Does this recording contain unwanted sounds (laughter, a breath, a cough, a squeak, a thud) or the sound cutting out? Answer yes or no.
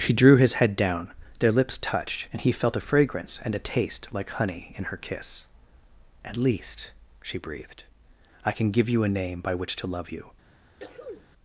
yes